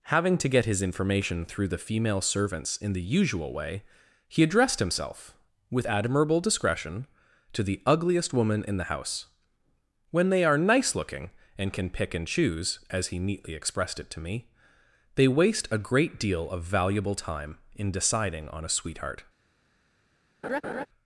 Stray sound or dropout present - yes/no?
yes